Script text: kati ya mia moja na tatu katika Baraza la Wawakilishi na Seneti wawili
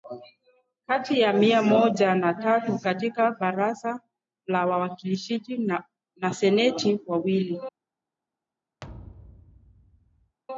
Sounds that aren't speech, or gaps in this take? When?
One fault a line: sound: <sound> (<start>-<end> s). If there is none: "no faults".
sound: thud (8.8-10.4 s)